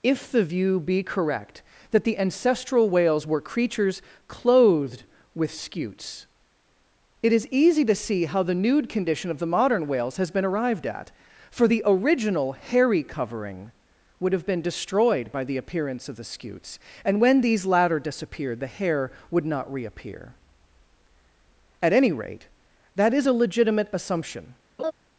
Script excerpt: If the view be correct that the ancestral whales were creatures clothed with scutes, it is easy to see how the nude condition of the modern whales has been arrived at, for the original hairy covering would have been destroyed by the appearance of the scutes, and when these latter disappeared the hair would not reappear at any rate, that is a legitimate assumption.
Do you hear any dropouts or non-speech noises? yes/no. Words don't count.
yes